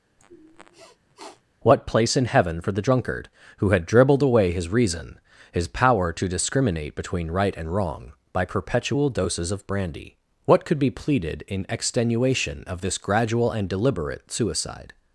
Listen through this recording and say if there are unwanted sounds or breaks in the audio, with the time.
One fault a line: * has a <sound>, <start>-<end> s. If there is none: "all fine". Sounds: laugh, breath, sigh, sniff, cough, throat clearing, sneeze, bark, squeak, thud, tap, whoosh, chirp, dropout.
* has a sniff, 0.2-1.4 s